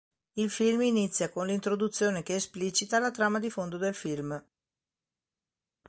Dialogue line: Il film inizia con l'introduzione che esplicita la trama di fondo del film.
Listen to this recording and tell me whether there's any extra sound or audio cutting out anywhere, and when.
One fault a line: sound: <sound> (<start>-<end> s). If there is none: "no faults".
no faults